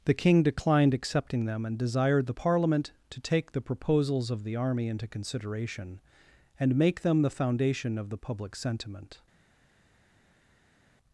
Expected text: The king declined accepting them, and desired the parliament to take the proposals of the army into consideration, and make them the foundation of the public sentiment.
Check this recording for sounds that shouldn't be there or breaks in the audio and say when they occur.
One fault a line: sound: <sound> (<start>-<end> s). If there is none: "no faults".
no faults